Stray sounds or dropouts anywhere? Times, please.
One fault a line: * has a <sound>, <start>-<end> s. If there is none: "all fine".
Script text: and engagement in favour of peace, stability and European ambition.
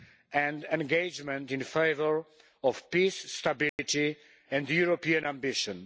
* has a dropout, 3.7-3.8 s